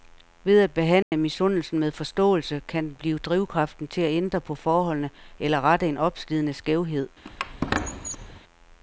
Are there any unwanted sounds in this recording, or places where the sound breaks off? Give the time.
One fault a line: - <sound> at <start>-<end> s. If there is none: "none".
- dropout at 1.0-1.1 s
- squeak at 7.2-8.4 s